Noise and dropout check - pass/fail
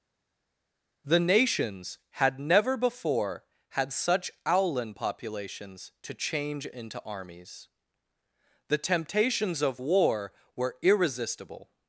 pass